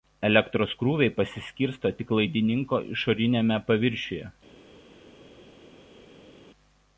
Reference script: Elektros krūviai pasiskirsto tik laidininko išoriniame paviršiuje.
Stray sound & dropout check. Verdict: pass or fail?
pass